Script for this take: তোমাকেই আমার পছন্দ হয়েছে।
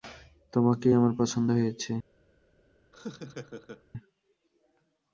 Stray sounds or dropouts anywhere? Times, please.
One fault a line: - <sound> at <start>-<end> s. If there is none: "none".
- laugh at 2.9-3.8 s